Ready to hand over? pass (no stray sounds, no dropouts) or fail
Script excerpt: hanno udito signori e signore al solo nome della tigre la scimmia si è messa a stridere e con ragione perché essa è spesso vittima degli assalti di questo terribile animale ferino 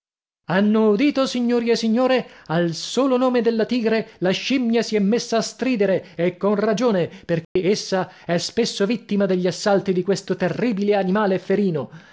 fail